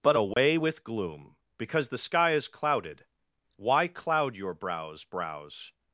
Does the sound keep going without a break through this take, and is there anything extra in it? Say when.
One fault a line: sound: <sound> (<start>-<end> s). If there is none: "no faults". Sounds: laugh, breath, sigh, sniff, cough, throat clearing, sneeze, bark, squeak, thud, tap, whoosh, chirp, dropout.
sound: dropout (0.3-0.4 s)